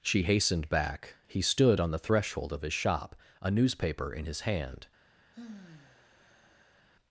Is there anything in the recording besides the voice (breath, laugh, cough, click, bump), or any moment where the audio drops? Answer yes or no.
yes